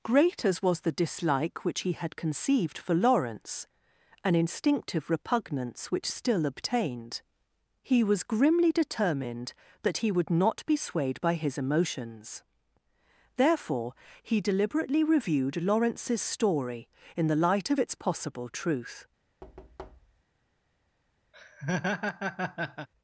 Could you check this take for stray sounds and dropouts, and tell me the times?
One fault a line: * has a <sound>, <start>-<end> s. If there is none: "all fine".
* has a thud, 19.4-20.2 s
* has a laugh, 21.3-22.9 s